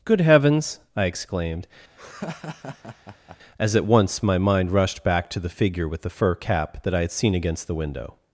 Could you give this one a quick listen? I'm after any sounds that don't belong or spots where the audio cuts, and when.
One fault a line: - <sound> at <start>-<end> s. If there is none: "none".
- laugh at 2.0-3.4 s